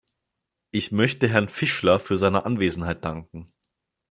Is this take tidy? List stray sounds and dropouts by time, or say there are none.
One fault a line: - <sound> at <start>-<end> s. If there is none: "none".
none